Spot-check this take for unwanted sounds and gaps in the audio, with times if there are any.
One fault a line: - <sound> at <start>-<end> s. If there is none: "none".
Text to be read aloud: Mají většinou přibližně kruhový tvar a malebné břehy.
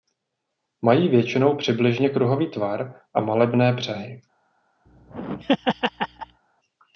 - laugh at 4.9-6.4 s